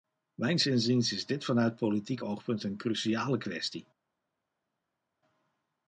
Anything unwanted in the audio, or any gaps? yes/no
no